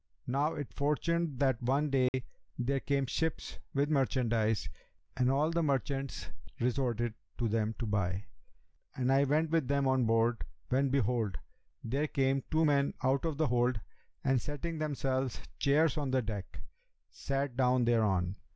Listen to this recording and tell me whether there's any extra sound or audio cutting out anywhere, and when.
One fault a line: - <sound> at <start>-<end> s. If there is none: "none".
- dropout at 2.1-2.1 s